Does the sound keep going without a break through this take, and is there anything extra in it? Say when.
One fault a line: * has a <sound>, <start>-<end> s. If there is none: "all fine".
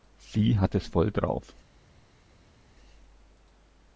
all fine